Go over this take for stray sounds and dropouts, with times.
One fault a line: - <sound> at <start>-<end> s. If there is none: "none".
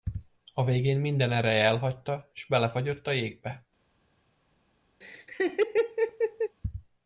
- laugh at 5.0-6.6 s